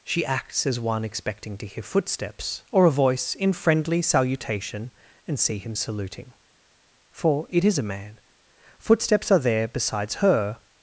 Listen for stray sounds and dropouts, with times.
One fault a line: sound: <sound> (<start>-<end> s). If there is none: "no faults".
no faults